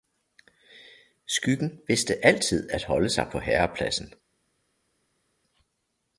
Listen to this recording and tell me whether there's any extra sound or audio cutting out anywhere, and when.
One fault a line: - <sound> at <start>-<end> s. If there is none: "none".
none